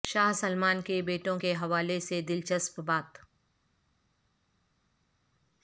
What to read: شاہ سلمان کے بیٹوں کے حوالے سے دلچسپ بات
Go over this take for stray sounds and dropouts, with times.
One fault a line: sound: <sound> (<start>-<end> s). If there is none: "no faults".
no faults